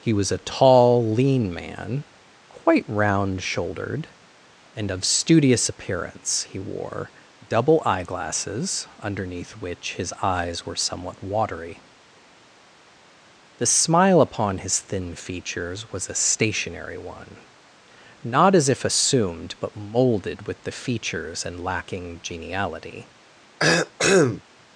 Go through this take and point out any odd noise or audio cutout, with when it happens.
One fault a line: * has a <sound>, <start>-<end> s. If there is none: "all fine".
* has a cough, 23.6-24.4 s